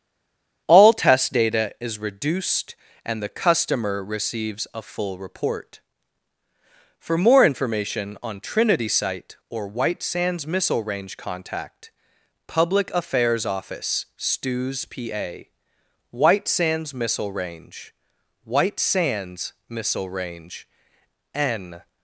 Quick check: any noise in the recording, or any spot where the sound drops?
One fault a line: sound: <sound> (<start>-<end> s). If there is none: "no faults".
no faults